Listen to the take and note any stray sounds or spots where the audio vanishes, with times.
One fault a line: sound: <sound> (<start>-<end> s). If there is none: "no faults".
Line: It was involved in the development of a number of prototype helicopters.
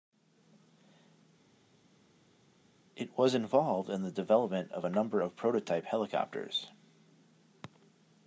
no faults